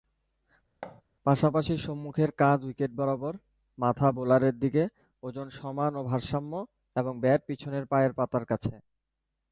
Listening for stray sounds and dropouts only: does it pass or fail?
fail